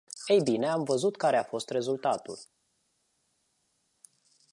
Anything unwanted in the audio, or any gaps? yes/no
no